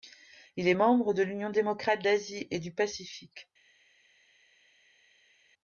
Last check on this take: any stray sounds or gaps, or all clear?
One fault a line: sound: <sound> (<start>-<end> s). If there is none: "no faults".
no faults